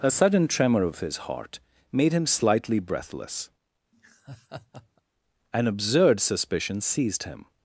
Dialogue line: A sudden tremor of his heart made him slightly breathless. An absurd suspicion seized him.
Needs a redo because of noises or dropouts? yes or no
yes